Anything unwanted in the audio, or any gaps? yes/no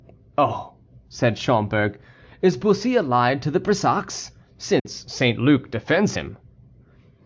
yes